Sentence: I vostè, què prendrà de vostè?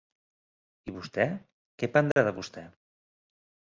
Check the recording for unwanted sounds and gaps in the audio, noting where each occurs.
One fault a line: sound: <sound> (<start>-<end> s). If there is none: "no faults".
sound: dropout (2.1-2.2 s)